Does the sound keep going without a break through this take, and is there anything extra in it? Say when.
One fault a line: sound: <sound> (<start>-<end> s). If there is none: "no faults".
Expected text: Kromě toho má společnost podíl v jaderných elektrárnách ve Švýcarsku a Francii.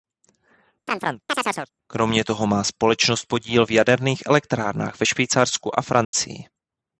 sound: chirp (0.9-1.7 s)
sound: dropout (6.0-6.1 s)